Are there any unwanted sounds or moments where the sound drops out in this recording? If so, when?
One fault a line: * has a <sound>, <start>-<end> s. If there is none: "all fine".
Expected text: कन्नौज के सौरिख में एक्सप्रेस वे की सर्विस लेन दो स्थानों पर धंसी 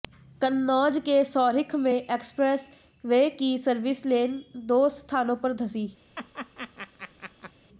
* has a laugh, 6.2-7.5 s